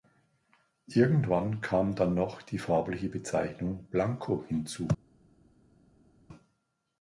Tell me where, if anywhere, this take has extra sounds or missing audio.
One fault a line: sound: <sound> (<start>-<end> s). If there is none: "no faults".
no faults